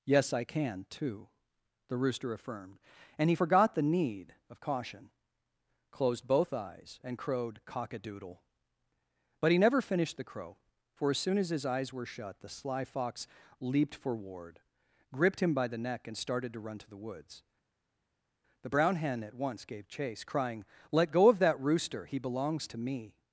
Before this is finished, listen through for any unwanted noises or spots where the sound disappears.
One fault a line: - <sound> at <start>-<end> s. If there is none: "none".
none